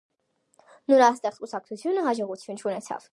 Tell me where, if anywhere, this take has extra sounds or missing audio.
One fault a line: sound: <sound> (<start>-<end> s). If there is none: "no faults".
no faults